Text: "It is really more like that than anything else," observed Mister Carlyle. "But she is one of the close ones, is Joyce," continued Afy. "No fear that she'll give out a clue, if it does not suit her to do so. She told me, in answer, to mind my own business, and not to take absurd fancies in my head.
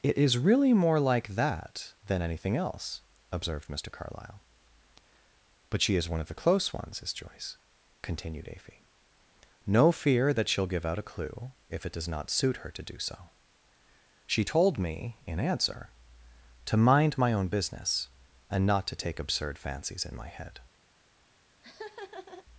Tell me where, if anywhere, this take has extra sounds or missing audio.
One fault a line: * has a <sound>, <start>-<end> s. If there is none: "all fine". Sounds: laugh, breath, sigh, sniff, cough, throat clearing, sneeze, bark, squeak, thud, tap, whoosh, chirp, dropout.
* has a laugh, 21.6-22.5 s